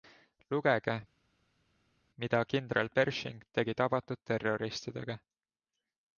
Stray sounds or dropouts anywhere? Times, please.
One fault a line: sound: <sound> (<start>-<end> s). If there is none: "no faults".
no faults